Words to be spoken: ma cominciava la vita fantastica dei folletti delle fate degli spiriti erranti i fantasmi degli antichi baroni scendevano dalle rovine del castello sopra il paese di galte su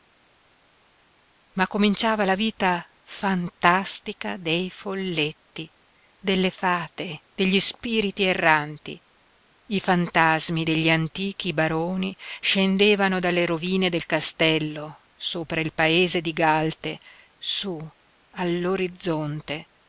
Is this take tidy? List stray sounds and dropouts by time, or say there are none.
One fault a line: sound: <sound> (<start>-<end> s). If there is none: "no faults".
no faults